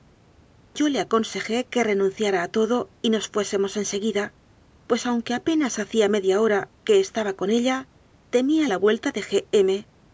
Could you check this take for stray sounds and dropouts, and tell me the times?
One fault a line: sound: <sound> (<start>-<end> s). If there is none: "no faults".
no faults